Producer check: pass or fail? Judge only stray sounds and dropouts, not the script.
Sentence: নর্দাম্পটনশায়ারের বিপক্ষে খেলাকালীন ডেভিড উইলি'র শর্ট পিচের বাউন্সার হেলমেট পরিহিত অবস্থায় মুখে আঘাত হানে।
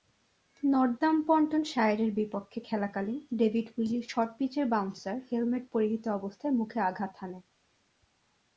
pass